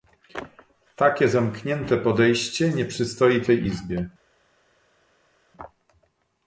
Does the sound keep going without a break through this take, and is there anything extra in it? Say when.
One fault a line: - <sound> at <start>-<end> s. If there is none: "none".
none